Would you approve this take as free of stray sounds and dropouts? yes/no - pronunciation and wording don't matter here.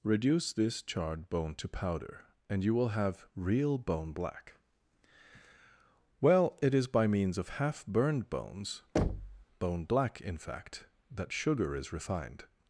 no